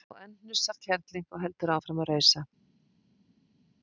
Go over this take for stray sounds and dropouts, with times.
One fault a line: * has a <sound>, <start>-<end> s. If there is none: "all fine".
all fine